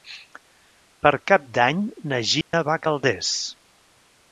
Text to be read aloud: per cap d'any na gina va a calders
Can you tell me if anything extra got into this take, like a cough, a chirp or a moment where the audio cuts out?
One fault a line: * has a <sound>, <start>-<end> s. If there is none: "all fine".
* has a dropout, 2.4-2.5 s